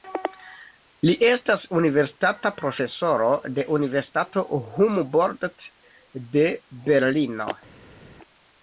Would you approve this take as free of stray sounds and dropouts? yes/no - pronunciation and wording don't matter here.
yes